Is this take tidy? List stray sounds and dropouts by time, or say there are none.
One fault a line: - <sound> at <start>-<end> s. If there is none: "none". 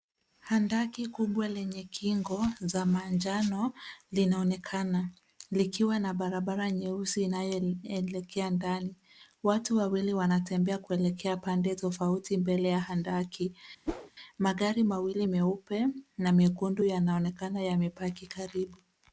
- whoosh at 13.9-14.1 s